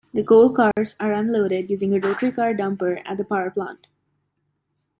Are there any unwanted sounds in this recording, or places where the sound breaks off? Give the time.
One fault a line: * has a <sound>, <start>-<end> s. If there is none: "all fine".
* has a dropout, 0.7-0.8 s